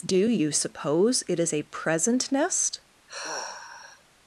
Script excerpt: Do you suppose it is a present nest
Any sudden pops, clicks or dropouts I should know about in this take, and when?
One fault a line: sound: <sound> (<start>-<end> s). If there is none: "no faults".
sound: sigh (3.1-4.0 s)